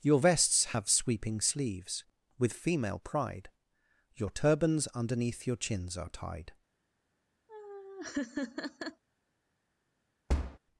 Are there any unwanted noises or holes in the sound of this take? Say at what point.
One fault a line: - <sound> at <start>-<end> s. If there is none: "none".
- laugh at 7.5-9.0 s
- thud at 10.3-10.6 s